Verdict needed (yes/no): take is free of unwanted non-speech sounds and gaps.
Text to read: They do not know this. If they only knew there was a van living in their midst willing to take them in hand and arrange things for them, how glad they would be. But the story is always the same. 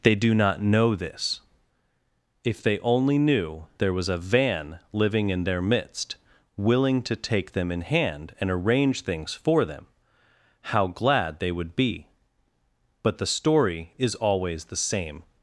yes